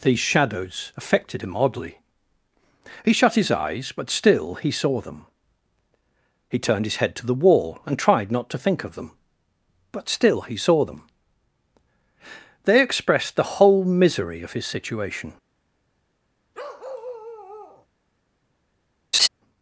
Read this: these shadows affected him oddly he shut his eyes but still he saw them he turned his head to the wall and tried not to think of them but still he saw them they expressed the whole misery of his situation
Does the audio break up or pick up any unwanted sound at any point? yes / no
yes